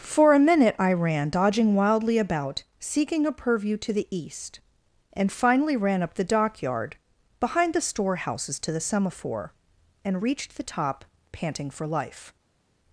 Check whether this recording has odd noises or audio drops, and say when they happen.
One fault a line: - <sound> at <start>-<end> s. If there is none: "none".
none